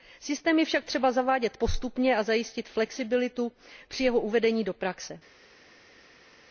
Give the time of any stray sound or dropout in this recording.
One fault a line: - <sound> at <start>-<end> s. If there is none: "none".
none